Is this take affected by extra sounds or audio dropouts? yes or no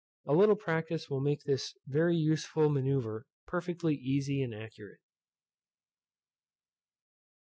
no